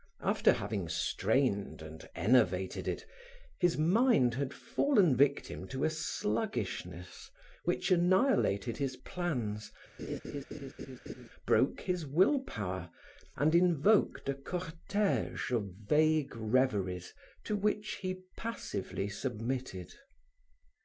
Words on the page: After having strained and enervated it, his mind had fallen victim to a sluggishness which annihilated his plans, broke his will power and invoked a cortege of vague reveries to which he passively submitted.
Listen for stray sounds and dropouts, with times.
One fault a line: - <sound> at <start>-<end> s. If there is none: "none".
- laugh at 10.0-11.3 s